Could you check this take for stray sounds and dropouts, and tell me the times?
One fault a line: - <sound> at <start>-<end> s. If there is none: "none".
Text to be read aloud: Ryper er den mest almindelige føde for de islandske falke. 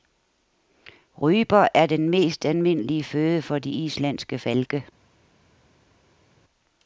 none